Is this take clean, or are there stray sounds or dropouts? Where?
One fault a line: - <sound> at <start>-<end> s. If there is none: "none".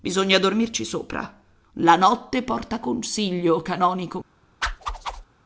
- whoosh at 4.6-5.3 s